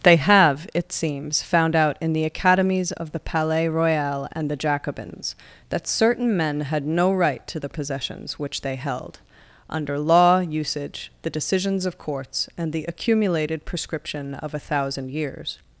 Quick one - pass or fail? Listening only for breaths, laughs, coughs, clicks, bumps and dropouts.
pass